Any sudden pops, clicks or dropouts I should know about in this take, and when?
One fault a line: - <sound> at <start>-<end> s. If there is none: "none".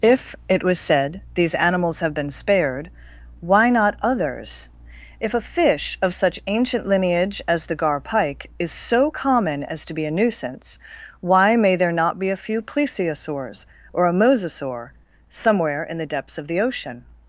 none